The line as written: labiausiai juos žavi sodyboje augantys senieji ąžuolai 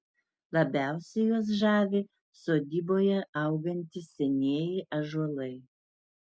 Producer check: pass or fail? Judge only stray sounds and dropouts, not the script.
pass